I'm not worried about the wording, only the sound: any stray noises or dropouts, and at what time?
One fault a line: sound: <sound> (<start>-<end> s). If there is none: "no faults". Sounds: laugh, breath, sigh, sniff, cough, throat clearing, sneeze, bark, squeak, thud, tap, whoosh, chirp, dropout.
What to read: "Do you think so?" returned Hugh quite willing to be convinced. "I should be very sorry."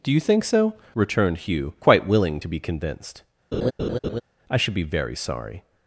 sound: laugh (3.5-4.2 s)